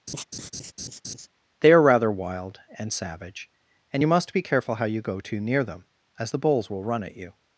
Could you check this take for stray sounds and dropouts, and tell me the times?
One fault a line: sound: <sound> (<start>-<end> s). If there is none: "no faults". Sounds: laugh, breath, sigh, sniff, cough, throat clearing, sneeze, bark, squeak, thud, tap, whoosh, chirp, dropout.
sound: laugh (0.1-1.3 s)